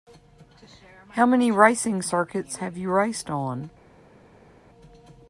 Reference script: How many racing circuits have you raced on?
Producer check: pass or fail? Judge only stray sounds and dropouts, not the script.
pass